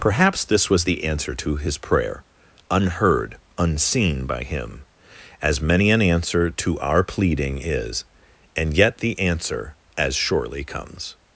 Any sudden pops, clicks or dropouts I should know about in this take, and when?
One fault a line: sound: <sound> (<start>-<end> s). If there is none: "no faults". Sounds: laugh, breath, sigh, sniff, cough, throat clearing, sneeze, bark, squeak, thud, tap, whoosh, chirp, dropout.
no faults